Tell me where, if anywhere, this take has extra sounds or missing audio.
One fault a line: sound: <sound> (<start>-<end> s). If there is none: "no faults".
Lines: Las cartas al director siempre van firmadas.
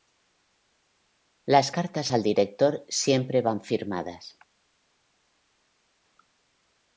no faults